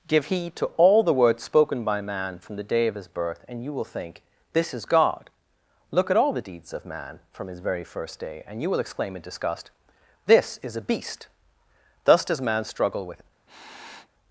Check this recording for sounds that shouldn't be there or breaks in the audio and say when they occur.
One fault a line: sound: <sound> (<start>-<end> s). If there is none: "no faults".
sound: sniff (13.5-14.1 s)